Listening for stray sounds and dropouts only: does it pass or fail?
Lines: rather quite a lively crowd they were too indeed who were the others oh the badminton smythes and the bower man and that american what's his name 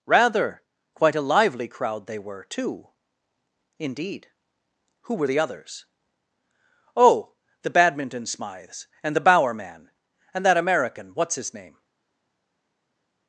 pass